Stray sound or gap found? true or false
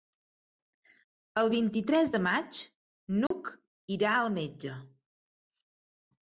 true